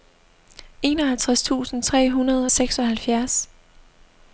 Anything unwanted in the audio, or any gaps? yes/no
no